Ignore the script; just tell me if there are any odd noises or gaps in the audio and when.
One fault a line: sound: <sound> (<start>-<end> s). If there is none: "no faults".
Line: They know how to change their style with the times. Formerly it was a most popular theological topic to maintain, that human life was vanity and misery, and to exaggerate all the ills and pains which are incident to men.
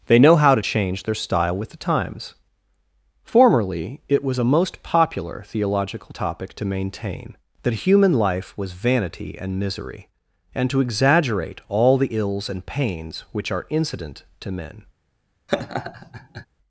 sound: laugh (15.5-16.5 s)